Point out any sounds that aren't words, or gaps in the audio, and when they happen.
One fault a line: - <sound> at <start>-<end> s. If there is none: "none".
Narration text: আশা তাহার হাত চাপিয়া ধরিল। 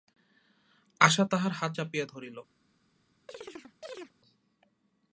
- chirp at 3.3-4.1 s